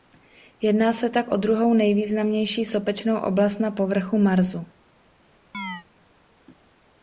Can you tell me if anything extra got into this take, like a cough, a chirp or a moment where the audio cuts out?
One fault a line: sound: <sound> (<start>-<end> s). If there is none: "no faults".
sound: chirp (5.5-5.8 s)